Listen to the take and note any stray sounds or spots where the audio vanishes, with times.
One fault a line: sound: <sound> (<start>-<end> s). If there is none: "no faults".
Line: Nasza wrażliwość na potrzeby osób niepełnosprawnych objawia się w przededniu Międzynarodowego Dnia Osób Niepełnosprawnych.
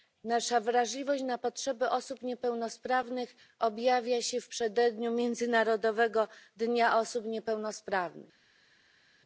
no faults